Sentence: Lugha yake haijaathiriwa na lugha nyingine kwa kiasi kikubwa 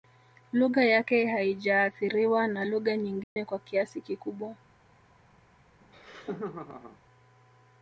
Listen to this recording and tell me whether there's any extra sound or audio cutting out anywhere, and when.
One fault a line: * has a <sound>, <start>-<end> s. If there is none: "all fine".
* has a dropout, 3.2-3.4 s
* has a laugh, 5.8-7.0 s